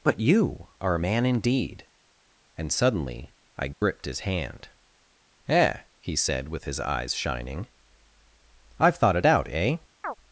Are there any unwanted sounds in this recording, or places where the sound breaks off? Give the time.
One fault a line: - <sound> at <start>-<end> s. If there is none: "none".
- dropout at 3.7-3.8 s
- chirp at 10.0-10.1 s